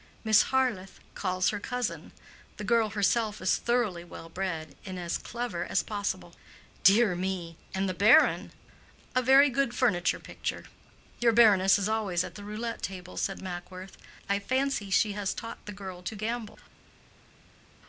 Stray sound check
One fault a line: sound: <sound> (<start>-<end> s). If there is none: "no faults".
no faults